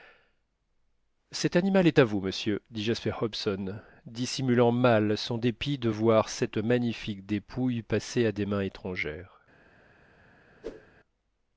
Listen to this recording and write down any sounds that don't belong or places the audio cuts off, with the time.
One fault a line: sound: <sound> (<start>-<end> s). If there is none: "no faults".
sound: whoosh (10.6-10.9 s)